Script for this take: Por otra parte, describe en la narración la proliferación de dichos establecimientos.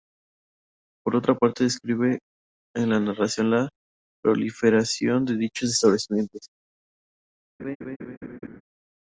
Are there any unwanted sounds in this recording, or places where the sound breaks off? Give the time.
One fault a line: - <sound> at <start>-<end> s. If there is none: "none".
- laugh at 7.6-8.6 s